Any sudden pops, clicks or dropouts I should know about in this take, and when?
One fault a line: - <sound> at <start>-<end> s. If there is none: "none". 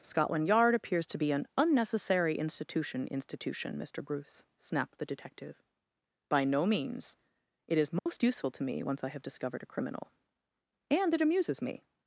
- dropout at 8.0-8.1 s